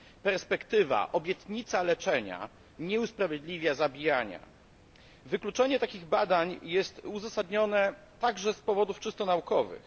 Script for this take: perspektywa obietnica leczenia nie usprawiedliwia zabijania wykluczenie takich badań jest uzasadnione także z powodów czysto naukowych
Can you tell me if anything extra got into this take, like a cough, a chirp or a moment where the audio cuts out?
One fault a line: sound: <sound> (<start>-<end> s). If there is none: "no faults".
no faults